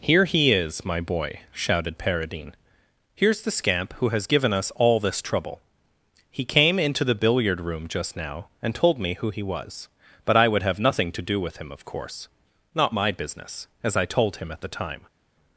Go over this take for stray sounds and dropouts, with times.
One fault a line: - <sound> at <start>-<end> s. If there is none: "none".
none